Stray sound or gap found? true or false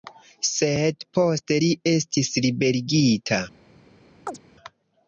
true